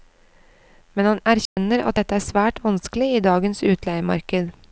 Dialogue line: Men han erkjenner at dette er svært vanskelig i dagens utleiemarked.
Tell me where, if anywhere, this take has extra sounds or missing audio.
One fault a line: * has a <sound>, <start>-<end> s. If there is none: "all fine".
* has a dropout, 1.5-1.6 s